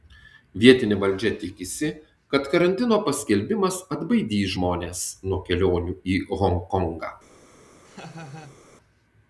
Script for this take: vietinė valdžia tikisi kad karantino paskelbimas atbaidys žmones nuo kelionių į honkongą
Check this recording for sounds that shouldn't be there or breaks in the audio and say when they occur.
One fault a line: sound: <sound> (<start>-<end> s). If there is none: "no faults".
sound: laugh (7.8-8.6 s)